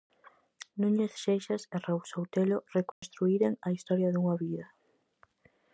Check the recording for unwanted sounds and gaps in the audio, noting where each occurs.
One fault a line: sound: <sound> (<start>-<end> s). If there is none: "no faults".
sound: dropout (2.9-3.0 s)